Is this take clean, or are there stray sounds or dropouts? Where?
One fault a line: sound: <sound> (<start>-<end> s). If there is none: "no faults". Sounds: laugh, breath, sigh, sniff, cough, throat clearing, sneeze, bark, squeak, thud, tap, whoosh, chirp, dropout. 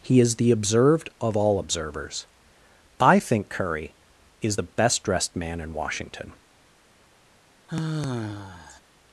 sound: sigh (7.7-8.8 s)